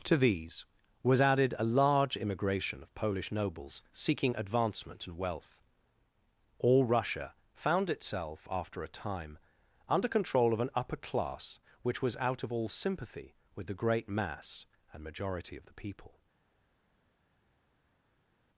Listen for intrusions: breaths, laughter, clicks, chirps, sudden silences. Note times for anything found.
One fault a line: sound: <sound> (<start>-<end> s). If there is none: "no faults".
no faults